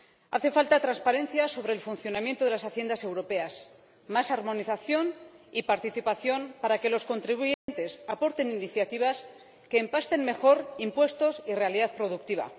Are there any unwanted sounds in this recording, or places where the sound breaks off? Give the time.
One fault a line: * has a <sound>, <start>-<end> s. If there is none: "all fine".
* has a dropout, 7.5-7.7 s